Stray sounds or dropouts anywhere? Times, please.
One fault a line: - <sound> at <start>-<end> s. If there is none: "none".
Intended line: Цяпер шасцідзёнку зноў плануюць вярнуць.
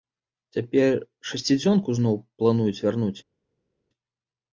none